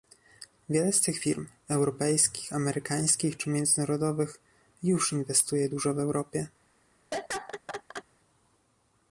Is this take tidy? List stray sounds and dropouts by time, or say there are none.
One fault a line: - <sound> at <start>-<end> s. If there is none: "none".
- laugh at 7.1-8.0 s